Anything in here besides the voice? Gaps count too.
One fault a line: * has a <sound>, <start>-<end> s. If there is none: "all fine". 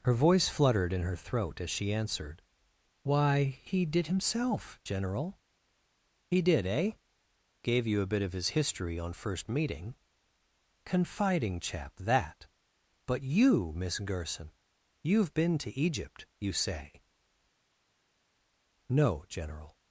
all fine